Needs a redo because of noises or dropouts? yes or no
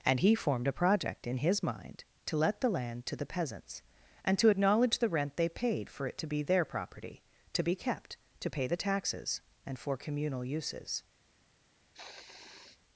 yes